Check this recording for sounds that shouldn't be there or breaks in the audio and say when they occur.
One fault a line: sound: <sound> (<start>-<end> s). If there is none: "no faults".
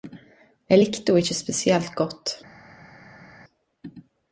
no faults